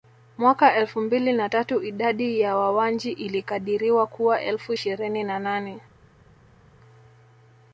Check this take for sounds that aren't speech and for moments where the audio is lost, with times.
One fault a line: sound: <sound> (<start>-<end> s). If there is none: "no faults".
no faults